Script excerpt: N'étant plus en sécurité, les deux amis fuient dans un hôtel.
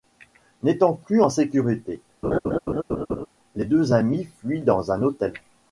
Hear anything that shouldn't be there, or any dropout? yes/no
yes